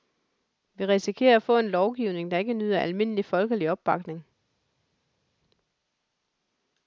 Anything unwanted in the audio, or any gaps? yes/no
no